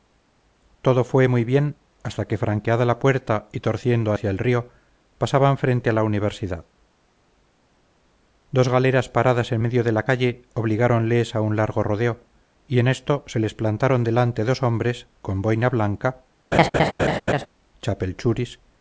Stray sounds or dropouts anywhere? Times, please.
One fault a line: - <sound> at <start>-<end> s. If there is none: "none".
- laugh at 16.5-17.5 s